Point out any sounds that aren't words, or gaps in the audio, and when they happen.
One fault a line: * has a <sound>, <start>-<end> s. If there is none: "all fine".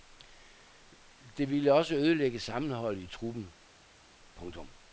all fine